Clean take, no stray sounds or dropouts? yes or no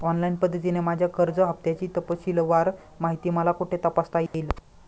no